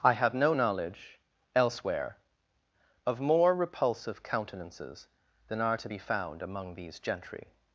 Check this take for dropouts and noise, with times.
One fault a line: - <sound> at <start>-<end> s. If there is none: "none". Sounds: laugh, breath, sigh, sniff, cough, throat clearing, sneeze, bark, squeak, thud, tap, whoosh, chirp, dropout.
none